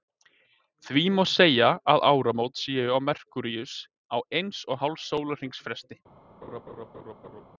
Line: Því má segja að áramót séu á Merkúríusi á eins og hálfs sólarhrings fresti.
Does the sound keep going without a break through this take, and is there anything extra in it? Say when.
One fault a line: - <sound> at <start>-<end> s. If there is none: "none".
- laugh at 6.4-7.4 s